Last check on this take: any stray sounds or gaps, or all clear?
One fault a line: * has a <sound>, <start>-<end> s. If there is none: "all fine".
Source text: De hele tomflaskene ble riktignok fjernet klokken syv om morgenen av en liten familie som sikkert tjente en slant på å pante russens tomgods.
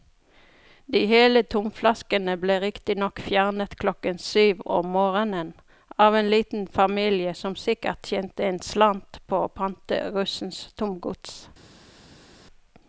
all fine